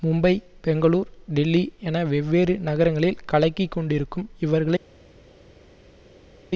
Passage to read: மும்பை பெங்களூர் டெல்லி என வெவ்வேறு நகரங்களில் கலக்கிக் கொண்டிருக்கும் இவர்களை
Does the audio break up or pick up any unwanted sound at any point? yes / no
no